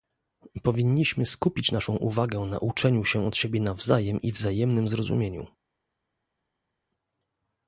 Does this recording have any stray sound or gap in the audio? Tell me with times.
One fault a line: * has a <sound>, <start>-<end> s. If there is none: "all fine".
all fine